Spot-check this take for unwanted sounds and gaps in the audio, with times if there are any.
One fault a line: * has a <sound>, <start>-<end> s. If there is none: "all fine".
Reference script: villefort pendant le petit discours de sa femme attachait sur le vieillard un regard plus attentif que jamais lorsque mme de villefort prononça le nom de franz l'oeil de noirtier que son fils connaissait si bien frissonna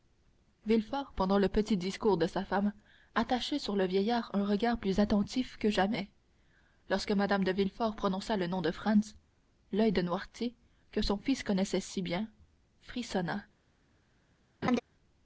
* has a laugh, 14.6-14.8 s